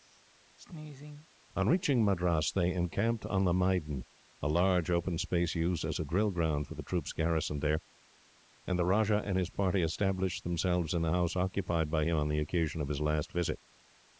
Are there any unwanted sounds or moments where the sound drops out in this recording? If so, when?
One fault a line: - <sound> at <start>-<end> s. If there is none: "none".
- sneeze at 0.6-1.3 s